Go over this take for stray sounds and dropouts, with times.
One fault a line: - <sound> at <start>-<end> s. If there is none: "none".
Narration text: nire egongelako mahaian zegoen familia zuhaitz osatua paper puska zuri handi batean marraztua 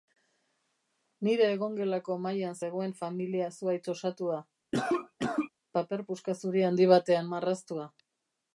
- cough at 4.7-5.5 s